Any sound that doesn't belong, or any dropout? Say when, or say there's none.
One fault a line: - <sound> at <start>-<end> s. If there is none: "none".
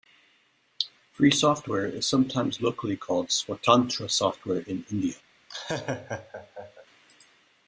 - laugh at 5.5-6.9 s